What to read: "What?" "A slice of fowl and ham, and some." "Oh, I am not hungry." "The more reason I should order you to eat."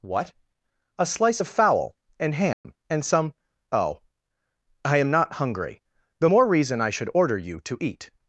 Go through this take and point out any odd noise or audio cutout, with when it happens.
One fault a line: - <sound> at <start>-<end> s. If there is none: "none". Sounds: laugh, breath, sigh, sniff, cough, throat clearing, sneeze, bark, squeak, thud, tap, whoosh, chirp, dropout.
- dropout at 2.5-2.6 s